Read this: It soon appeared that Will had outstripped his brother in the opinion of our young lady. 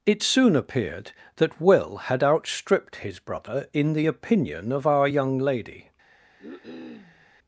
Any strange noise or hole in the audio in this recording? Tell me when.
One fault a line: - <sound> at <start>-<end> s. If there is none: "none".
- cough at 6.4-7.3 s